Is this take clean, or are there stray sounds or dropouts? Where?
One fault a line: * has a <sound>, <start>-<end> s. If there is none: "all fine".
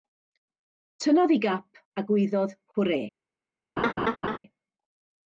* has a laugh, 3.8-4.4 s